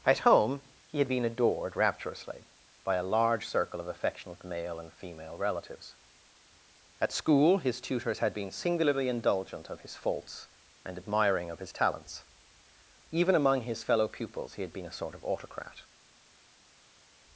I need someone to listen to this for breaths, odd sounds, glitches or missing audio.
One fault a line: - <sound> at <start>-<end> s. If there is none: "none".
none